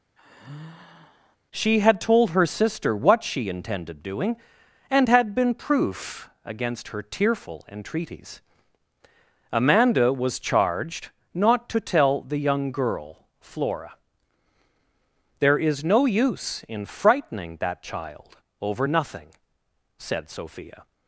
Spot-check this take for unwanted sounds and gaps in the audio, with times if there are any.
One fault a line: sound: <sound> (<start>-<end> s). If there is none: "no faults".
sound: sigh (0.2-1.4 s)